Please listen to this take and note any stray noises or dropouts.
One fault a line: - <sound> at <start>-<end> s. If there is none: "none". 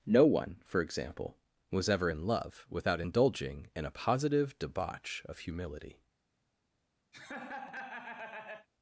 - laugh at 7.1-8.7 s